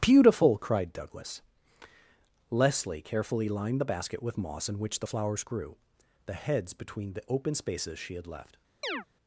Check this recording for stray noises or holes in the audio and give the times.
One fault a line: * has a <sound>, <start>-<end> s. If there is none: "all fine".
* has a chirp, 8.8-9.1 s